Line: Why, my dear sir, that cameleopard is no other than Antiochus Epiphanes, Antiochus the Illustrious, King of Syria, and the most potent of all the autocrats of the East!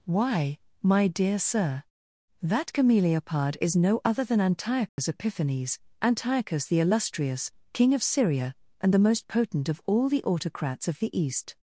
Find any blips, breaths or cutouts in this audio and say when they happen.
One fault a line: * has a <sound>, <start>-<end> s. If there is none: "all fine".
* has a dropout, 4.9-5.0 s